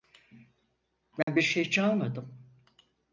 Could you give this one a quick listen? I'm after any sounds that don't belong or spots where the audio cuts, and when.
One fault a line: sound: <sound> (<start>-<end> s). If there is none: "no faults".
sound: dropout (1.2-1.3 s)